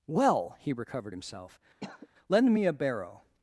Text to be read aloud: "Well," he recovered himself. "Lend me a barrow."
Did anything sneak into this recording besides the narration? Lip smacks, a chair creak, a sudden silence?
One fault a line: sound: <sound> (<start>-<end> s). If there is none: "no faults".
sound: cough (1.8-2.1 s)